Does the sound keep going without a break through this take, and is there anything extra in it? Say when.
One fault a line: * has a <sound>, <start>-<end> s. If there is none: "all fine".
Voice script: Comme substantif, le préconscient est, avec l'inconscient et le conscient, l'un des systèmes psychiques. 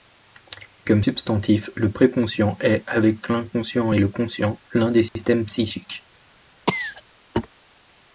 * has a dropout, 5.1-5.2 s
* has a cough, 6.7-7.0 s